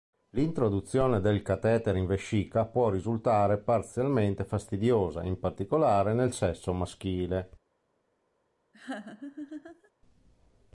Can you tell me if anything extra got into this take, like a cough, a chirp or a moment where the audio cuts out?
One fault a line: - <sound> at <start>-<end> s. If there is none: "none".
- laugh at 8.7-9.9 s